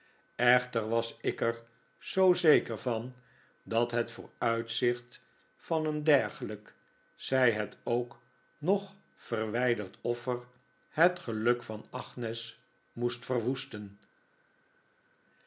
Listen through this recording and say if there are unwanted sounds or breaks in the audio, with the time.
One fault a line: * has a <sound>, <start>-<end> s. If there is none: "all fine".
all fine